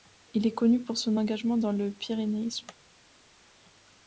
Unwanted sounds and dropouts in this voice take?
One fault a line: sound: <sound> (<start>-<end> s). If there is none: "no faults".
no faults